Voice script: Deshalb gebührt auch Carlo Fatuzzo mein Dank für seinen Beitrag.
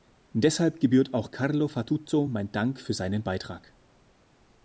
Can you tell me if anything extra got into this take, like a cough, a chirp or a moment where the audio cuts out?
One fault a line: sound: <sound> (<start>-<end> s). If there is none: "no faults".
no faults